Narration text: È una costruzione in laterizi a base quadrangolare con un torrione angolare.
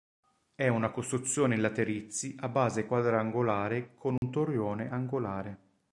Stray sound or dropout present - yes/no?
yes